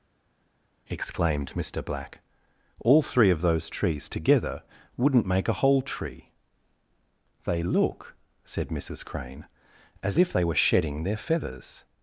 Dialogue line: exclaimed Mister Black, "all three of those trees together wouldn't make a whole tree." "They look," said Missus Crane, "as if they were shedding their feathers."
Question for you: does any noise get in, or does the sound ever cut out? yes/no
no